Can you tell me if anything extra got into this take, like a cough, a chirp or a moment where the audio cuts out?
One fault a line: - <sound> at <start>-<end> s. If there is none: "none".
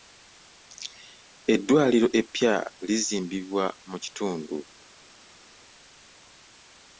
none